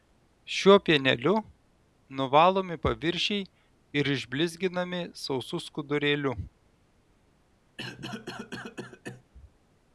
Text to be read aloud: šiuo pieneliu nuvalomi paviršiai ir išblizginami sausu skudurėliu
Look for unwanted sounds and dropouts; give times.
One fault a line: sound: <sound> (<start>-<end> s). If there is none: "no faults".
sound: cough (7.8-9.3 s)